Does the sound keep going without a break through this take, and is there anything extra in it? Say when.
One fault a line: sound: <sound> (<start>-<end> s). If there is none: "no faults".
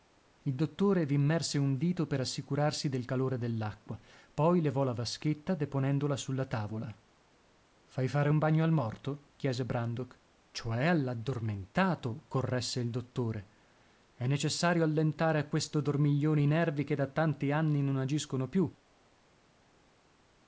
no faults